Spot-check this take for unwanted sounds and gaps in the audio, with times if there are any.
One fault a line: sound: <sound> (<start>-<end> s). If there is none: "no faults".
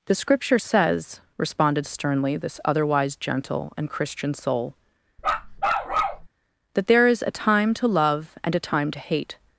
sound: bark (5.2-6.3 s)